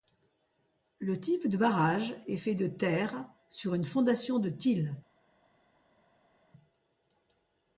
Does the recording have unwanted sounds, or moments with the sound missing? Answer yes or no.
no